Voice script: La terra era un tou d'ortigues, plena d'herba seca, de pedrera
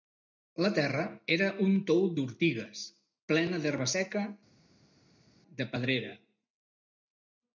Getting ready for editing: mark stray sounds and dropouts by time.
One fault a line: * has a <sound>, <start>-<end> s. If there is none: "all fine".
all fine